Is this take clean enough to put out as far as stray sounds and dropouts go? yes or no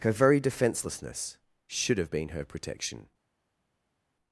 yes